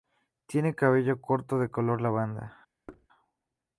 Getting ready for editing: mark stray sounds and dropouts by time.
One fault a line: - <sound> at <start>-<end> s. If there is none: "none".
- thud at 2.9-3.1 s